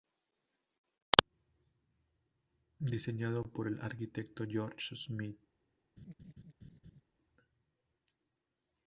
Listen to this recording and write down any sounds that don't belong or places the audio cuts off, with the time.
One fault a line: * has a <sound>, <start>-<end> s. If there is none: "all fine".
* has a laugh, 6.0-7.0 s